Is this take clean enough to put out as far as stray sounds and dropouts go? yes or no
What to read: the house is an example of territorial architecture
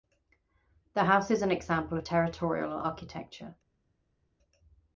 yes